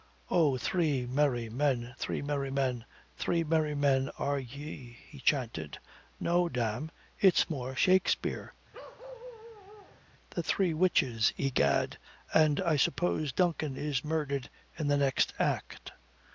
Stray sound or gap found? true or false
true